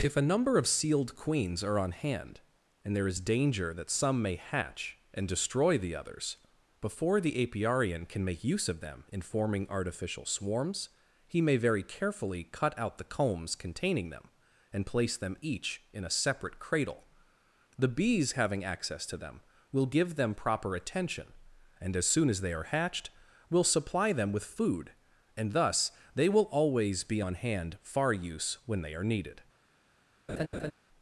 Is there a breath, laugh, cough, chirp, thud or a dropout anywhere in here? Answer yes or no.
yes